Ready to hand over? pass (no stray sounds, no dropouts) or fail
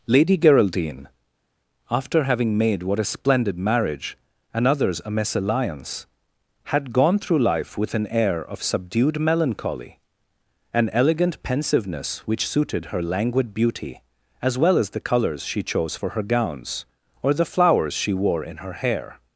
pass